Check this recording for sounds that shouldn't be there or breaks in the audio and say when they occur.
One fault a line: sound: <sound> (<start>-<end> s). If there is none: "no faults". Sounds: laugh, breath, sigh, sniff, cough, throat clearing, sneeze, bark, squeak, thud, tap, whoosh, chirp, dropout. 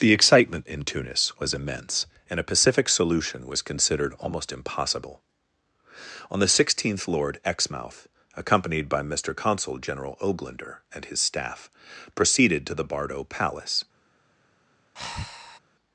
sound: breath (15.0-15.6 s)